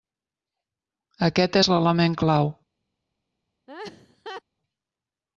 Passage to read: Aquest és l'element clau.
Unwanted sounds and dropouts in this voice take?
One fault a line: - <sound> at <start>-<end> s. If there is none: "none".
- laugh at 3.7-4.4 s